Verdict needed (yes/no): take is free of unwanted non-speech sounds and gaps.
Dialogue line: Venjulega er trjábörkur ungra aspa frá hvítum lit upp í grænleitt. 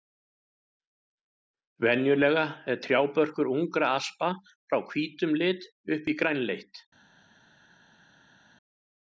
yes